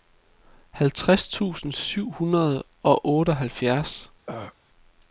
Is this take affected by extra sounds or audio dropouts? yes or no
yes